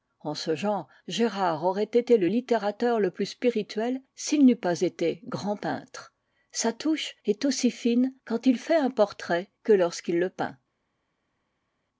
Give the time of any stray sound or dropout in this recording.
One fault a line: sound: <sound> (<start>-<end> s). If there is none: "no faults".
no faults